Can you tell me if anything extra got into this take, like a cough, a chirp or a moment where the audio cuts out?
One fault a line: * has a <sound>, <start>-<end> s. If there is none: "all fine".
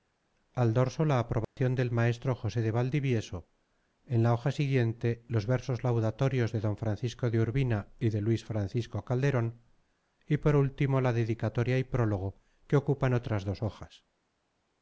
* has a dropout, 1.4-1.6 s